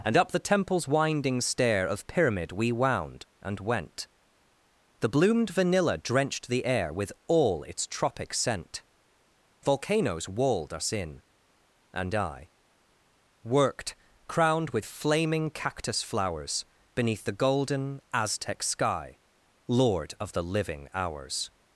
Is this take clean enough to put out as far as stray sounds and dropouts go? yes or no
yes